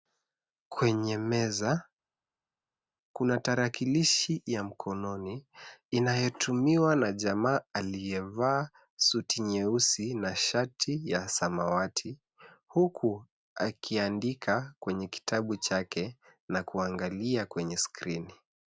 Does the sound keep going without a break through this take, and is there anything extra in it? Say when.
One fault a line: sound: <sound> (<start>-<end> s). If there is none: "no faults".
no faults